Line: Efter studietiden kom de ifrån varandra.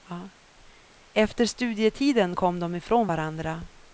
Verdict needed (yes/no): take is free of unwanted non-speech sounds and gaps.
yes